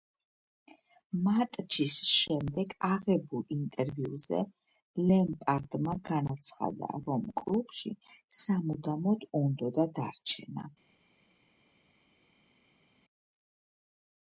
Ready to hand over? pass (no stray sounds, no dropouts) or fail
pass